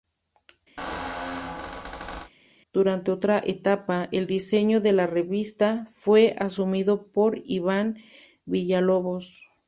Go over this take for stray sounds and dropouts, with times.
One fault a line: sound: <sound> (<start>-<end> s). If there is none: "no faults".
sound: squeak (0.8-2.3 s)